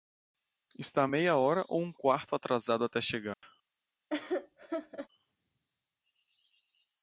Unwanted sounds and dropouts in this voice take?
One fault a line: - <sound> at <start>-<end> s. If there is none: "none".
- dropout at 3.3-3.4 s
- laugh at 4.1-5.1 s